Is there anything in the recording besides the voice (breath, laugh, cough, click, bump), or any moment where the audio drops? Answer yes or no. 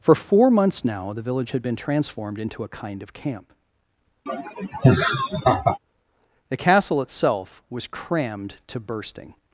yes